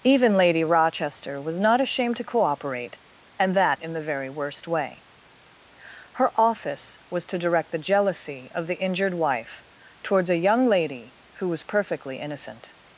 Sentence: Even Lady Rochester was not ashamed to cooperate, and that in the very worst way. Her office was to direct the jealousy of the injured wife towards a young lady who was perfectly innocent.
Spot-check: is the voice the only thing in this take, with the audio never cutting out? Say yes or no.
yes